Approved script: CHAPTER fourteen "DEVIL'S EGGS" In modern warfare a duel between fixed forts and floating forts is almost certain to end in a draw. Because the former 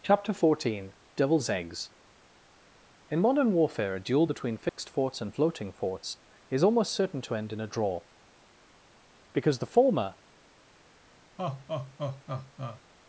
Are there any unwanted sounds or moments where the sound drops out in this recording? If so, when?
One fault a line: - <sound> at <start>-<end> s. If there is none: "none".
- dropout at 4.7-4.8 s
- laugh at 11.4-12.8 s